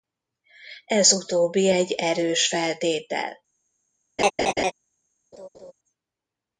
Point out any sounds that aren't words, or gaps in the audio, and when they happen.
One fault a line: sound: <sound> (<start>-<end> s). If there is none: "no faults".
sound: laugh (4.2-4.7 s)
sound: laugh (5.3-5.7 s)